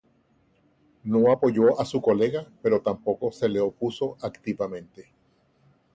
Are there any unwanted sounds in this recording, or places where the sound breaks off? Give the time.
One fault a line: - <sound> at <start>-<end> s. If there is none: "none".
none